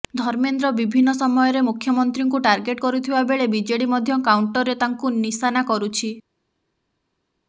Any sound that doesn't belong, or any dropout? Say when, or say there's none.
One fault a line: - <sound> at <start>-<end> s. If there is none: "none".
none